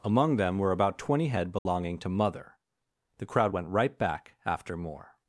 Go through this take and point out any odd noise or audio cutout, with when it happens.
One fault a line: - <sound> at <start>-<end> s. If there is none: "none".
- dropout at 1.6-1.7 s